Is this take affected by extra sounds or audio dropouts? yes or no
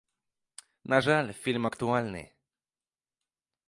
no